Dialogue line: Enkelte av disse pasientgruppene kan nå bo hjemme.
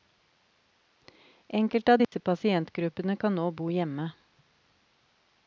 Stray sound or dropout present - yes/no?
yes